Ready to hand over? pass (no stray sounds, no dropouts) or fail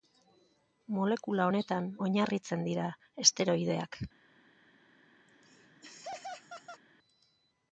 fail